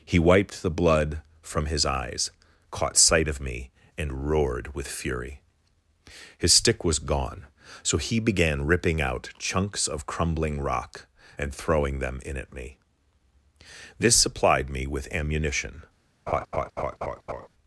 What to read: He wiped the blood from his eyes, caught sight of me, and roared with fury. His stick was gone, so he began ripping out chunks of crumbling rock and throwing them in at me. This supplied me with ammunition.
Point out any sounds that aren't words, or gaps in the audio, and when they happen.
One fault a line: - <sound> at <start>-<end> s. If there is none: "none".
- laugh at 16.3-17.5 s